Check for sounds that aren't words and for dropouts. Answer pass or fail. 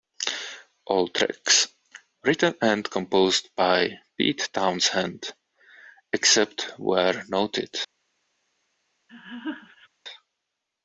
fail